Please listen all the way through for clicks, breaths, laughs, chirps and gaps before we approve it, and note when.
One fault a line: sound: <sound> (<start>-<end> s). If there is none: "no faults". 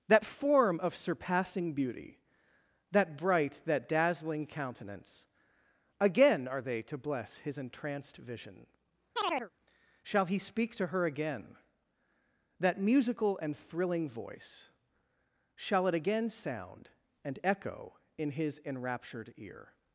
sound: chirp (9.2-9.5 s)